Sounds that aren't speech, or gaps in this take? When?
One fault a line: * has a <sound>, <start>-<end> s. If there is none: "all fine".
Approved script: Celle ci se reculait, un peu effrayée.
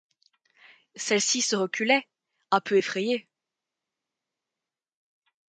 all fine